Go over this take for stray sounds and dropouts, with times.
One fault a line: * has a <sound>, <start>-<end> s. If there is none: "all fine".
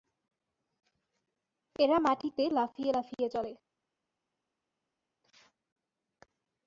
all fine